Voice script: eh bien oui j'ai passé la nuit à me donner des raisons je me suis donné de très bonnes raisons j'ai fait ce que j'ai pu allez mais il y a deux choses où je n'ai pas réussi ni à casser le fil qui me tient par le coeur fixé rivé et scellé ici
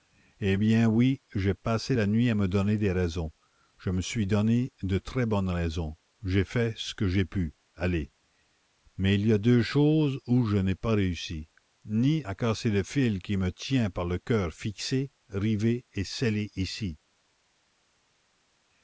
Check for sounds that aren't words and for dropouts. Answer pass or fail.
pass